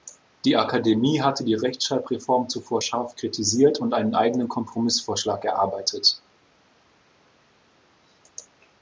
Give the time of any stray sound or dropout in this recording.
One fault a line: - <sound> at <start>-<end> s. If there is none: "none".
none